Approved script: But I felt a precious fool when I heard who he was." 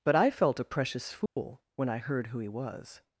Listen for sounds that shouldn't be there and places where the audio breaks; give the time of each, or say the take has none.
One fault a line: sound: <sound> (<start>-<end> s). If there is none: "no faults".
sound: dropout (1.3-1.4 s)